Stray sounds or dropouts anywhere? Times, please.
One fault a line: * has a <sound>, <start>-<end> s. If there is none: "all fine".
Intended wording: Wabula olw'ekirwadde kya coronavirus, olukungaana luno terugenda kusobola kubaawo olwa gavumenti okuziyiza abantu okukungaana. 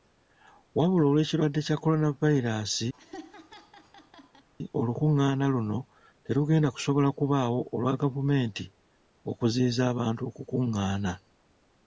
* has a laugh, 2.9-4.5 s